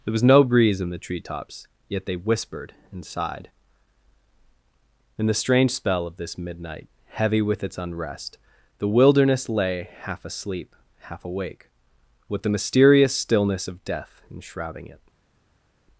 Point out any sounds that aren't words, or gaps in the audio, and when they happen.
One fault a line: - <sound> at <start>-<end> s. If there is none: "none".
none